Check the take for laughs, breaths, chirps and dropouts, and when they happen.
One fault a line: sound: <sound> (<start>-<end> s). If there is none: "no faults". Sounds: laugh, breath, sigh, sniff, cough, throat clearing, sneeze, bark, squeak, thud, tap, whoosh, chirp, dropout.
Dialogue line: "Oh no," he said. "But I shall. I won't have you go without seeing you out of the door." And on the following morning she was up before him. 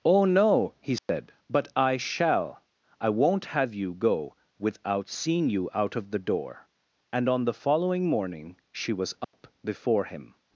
sound: dropout (1.0-1.1 s)
sound: dropout (9.2-9.3 s)